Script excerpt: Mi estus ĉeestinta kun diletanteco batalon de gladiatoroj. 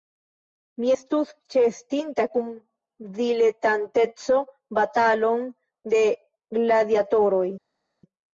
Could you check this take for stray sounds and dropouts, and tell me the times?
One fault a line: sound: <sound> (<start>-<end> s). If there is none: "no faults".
no faults